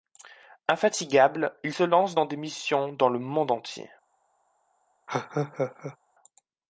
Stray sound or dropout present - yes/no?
yes